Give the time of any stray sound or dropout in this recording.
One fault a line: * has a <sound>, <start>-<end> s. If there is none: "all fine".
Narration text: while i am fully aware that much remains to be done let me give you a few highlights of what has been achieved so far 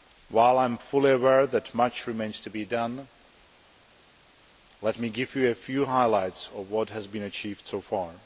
all fine